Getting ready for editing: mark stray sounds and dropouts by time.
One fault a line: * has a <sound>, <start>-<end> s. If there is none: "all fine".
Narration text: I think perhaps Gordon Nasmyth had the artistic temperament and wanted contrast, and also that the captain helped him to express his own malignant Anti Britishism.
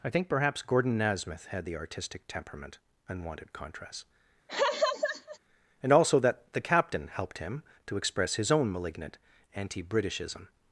* has a laugh, 4.5-5.4 s